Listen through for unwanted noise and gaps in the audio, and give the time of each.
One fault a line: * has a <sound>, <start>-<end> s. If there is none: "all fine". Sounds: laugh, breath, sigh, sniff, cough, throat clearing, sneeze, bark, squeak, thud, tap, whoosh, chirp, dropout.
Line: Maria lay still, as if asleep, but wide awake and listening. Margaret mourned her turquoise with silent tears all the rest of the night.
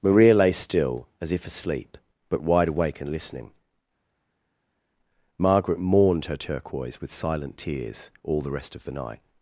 all fine